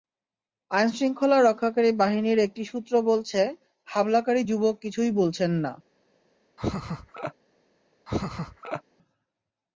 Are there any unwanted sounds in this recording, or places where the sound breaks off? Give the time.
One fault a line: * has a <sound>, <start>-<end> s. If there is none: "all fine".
* has a laugh, 6.6-7.3 s
* has a laugh, 8.1-8.8 s